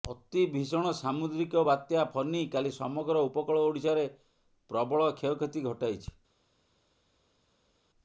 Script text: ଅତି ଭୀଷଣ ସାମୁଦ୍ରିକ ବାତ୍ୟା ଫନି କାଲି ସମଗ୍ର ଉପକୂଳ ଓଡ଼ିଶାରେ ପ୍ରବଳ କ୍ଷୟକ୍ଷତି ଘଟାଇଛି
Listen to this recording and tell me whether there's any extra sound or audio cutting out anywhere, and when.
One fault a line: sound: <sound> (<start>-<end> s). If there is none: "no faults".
no faults